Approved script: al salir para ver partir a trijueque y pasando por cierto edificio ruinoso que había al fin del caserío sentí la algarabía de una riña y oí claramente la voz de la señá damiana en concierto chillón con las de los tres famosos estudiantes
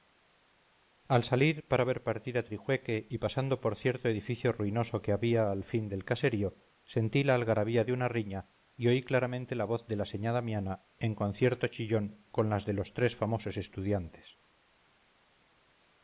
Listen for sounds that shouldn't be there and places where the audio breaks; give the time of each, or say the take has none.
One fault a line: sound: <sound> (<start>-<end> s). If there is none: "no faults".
no faults